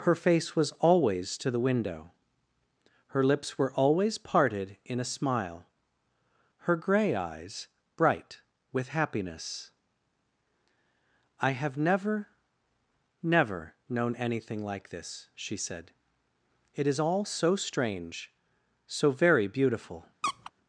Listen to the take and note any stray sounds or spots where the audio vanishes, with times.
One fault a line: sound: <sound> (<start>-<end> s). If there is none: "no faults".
sound: squeak (20.2-20.5 s)